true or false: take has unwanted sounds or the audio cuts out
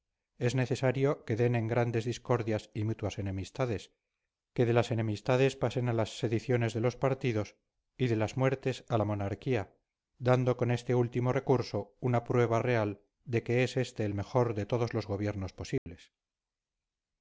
true